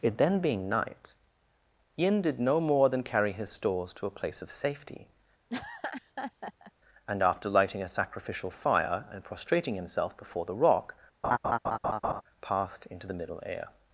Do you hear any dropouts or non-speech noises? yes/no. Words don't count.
yes